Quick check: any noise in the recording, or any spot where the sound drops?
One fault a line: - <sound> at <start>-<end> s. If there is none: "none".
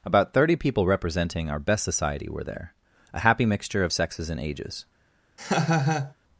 - laugh at 5.4-6.1 s